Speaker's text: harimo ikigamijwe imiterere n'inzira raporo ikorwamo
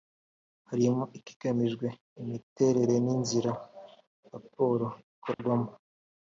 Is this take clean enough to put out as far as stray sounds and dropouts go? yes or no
no